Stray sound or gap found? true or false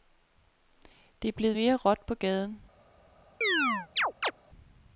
true